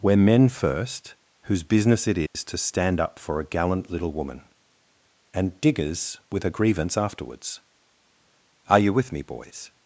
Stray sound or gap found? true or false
true